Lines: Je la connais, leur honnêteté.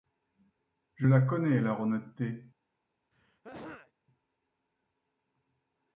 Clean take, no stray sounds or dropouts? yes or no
no